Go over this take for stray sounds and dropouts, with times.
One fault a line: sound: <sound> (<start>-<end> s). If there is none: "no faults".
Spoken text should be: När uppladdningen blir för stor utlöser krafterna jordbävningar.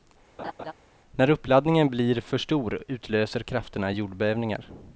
sound: laugh (0.4-0.7 s)